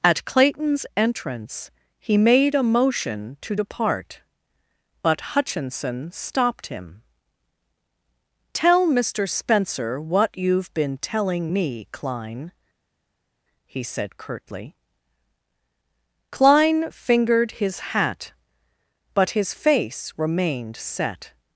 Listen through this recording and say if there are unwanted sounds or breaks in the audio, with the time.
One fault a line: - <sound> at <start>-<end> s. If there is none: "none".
none